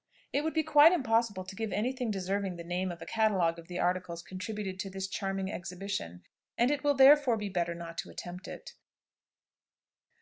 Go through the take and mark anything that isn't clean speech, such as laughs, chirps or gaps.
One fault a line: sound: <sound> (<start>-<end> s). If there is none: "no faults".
no faults